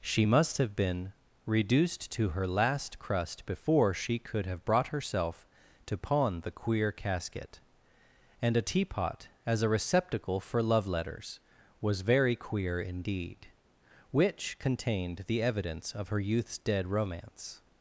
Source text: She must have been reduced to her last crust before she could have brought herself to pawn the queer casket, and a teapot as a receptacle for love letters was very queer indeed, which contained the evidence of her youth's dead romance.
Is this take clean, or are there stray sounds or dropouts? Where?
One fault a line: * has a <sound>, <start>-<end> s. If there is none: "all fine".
all fine